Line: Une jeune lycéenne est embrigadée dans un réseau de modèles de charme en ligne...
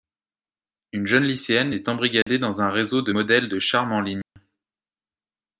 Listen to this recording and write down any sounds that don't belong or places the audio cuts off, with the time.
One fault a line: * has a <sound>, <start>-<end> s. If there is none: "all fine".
* has a dropout, 2.2-2.3 s
* has a dropout, 4.2-4.4 s